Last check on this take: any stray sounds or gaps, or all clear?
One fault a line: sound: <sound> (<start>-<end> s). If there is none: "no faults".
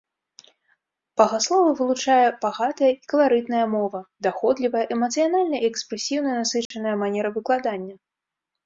sound: dropout (6.7-6.7 s)